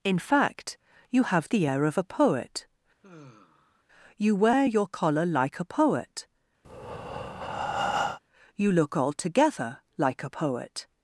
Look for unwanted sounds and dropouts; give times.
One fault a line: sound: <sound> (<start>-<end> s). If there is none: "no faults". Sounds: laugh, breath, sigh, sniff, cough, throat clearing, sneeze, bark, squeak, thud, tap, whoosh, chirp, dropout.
sound: sigh (3.0-3.8 s)
sound: breath (6.6-8.2 s)